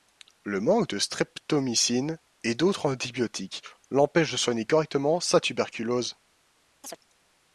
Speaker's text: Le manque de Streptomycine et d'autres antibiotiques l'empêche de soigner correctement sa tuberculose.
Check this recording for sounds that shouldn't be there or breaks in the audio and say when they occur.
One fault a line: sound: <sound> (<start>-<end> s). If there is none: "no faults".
sound: chirp (6.8-7.0 s)